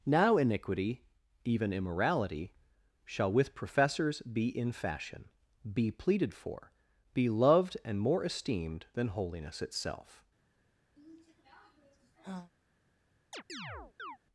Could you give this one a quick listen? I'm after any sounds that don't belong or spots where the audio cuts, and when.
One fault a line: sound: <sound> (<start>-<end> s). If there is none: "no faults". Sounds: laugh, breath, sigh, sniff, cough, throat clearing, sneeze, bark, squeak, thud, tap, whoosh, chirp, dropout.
sound: sigh (11.0-12.5 s)
sound: chirp (13.3-14.2 s)